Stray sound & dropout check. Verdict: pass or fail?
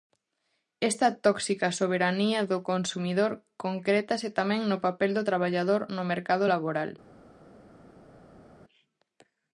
pass